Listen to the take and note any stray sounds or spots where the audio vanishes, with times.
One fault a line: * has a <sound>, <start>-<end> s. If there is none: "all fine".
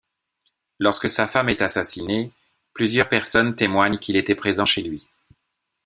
all fine